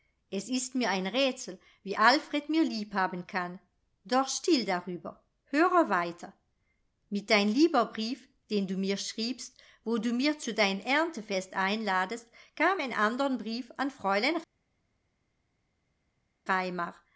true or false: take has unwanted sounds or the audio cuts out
false